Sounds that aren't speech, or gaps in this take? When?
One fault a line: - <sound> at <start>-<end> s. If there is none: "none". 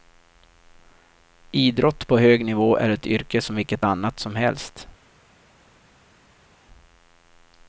none